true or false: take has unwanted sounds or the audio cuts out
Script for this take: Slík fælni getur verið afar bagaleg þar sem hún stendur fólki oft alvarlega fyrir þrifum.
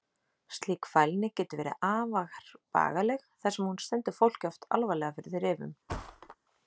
true